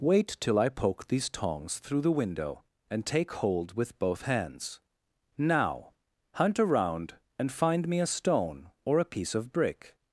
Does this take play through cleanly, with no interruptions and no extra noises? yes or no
yes